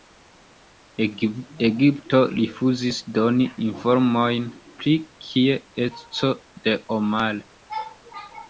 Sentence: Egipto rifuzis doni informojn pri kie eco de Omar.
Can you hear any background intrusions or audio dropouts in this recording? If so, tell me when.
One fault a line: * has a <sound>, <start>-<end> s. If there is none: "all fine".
all fine